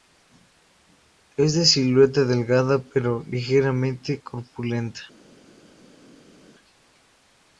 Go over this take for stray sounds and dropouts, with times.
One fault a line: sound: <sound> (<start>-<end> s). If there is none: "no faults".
no faults